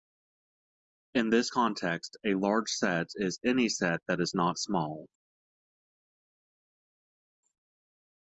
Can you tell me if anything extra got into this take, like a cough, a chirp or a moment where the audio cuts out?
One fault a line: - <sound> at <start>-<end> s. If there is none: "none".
none